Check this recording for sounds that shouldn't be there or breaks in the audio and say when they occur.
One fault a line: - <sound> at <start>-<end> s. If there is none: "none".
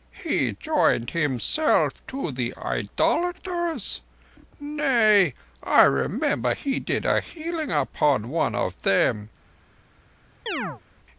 - chirp at 10.5-10.8 s